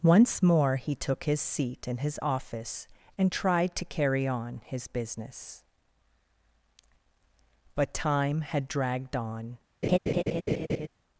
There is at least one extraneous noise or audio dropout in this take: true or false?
true